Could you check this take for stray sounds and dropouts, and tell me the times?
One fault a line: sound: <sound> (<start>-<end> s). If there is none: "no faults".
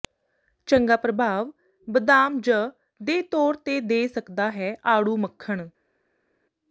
no faults